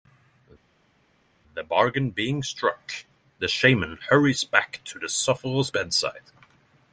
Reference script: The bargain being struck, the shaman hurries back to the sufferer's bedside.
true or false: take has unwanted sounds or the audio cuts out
false